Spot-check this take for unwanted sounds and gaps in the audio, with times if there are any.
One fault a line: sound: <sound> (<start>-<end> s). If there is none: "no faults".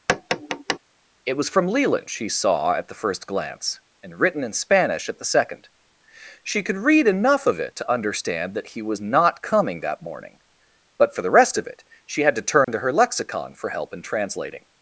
sound: tap (0.1-0.8 s)
sound: dropout (12.6-12.7 s)